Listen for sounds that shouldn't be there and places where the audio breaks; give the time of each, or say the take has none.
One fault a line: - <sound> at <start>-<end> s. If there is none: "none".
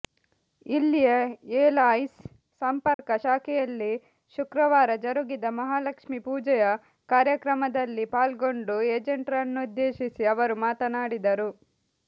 - dropout at 2.9-3.0 s